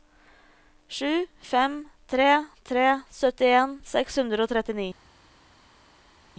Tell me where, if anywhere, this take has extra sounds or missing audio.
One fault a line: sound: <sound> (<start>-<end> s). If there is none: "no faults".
no faults